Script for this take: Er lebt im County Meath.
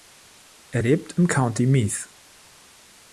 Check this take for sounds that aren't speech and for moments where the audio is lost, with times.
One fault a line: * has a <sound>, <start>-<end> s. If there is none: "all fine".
all fine